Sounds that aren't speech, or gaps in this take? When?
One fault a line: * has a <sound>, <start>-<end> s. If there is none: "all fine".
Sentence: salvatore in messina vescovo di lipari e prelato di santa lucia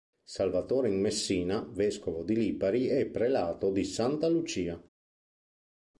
all fine